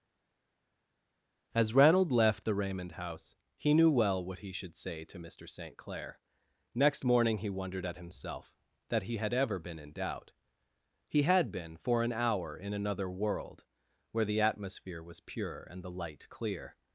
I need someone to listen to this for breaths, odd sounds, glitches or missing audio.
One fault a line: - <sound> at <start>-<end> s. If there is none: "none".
none